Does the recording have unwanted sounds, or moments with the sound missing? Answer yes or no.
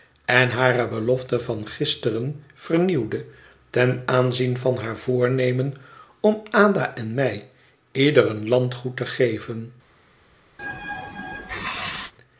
yes